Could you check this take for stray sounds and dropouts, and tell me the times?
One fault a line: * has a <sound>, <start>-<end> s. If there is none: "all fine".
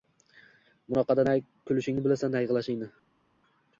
all fine